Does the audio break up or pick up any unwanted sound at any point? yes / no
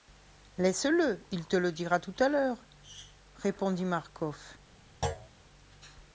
yes